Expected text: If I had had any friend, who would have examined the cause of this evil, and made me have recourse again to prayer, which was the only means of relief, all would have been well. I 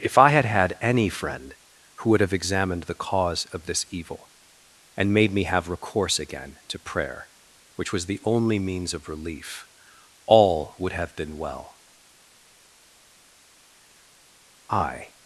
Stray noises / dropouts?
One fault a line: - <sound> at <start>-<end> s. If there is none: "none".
none